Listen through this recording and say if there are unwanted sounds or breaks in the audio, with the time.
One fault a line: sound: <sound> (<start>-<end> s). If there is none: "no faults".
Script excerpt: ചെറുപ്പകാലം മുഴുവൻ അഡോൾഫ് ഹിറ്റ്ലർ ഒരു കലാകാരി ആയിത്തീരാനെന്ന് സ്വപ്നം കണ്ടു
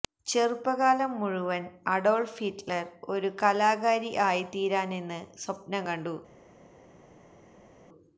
no faults